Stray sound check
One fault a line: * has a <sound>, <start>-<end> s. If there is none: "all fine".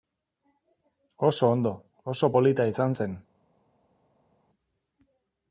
all fine